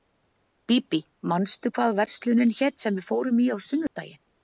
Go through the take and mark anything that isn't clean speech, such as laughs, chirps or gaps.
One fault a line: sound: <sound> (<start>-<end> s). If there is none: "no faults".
sound: dropout (3.9-4.0 s)